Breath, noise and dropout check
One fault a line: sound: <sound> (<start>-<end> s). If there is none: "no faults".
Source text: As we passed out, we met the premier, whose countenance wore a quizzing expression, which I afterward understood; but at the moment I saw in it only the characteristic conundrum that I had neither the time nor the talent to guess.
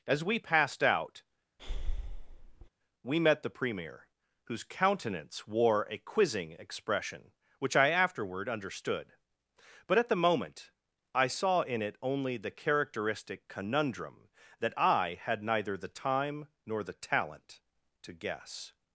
sound: breath (1.6-2.7 s)